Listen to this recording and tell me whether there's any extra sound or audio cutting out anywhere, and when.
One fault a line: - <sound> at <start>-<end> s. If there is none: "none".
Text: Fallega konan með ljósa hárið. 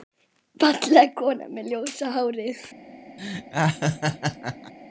- laugh at 3.2-4.7 s